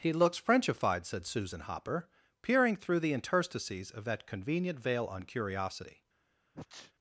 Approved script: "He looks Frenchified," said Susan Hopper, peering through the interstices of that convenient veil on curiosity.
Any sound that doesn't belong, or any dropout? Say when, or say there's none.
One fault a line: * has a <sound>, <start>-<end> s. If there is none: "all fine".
* has a sneeze, 6.5-6.9 s